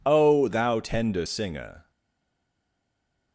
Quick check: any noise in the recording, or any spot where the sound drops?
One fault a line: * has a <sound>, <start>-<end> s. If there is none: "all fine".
all fine